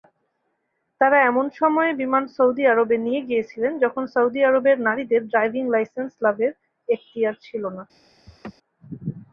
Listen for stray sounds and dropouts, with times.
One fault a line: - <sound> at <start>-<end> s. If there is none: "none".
- laugh at 8.3-8.5 s